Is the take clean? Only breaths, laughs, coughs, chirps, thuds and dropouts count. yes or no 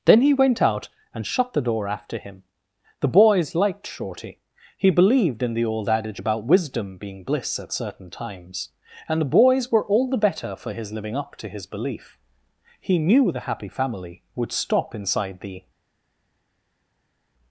yes